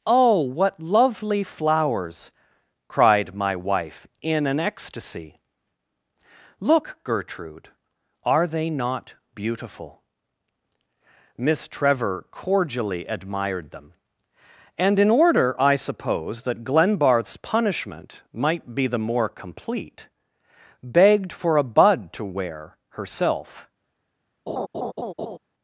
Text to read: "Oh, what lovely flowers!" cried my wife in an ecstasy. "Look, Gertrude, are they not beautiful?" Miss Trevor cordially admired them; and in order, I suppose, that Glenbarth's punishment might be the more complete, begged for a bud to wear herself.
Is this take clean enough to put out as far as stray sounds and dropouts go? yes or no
no